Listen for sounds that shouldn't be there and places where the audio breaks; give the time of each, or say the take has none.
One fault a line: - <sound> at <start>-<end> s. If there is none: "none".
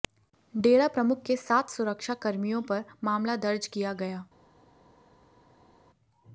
none